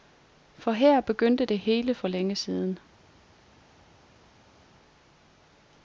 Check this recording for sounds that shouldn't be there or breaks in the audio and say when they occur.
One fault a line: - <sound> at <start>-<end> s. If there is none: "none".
none